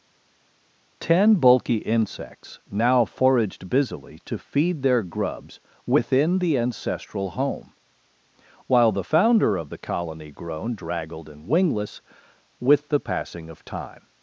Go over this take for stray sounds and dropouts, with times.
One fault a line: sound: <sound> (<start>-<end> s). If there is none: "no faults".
no faults